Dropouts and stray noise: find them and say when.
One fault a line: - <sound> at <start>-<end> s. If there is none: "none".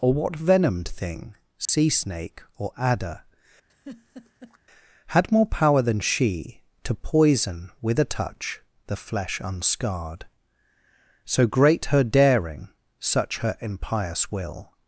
- dropout at 1.7-1.7 s
- laugh at 3.7-4.6 s